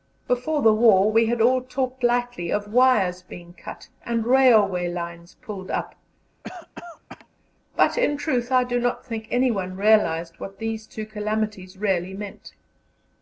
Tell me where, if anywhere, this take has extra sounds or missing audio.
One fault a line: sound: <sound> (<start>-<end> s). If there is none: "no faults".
sound: cough (6.4-7.3 s)